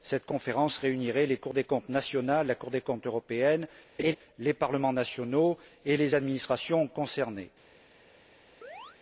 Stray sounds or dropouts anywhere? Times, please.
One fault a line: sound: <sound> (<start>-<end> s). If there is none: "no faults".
sound: laugh (4.0-4.2 s)
sound: chirp (8.6-9.0 s)